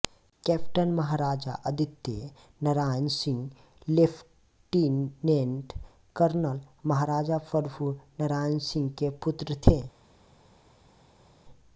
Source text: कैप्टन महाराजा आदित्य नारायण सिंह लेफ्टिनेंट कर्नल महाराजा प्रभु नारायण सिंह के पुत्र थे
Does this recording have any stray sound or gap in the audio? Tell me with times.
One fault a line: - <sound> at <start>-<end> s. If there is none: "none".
none